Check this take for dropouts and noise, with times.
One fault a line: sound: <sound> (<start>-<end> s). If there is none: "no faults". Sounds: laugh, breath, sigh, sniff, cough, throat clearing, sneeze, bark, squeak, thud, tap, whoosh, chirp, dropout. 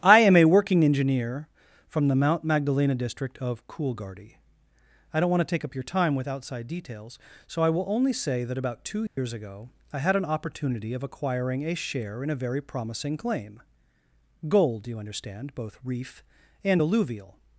sound: dropout (9.1-9.2 s)